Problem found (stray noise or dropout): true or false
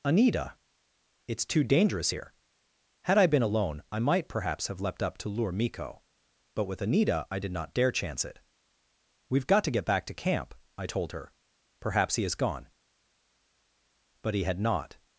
false